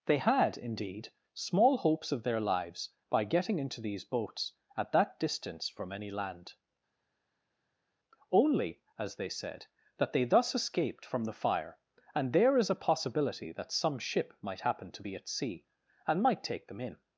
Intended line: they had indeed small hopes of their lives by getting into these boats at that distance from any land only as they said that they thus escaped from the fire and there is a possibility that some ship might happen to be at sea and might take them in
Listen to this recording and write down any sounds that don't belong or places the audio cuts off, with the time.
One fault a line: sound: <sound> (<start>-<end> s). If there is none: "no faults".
no faults